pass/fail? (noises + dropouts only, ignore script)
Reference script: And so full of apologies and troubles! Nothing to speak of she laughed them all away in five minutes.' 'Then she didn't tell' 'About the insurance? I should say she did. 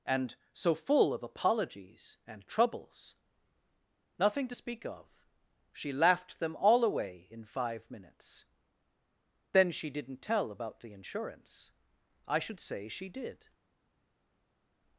pass